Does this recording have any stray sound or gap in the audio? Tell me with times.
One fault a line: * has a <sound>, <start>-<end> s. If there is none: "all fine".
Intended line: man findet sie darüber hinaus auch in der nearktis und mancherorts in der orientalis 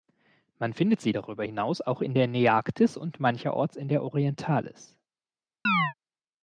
* has a chirp, 5.6-5.9 s